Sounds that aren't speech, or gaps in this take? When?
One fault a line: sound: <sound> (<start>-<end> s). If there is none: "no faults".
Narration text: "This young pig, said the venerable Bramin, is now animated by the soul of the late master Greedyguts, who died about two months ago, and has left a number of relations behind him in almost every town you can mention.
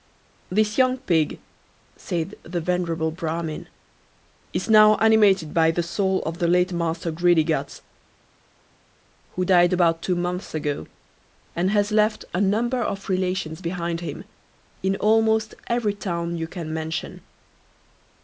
no faults